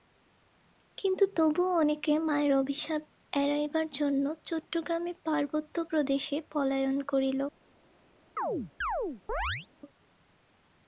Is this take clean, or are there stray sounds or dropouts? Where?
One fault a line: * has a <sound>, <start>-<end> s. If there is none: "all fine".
* has a chirp, 8.4-9.7 s